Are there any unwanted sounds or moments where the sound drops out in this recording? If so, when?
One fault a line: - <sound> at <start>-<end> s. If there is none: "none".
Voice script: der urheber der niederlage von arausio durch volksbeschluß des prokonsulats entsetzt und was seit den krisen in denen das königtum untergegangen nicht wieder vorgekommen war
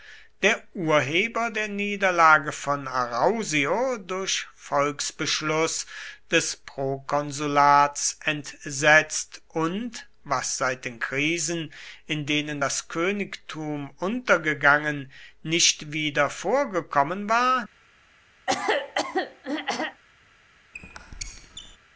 - throat clearing at 18.5-20.0 s
- squeak at 20.7-21.8 s